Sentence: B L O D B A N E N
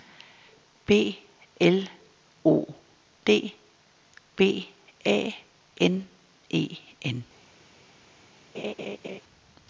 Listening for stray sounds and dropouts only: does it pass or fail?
fail